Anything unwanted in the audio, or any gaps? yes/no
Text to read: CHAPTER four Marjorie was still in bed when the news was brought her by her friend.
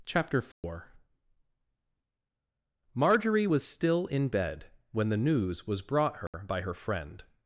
yes